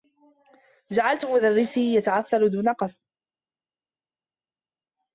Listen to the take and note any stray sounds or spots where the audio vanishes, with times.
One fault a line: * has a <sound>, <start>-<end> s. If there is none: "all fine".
all fine